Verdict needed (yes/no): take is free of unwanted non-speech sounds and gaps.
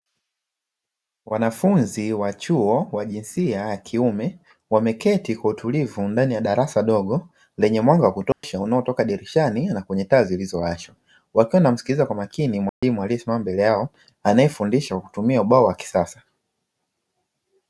no